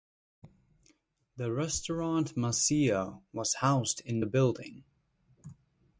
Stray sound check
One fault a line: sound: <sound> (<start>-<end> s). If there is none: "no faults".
no faults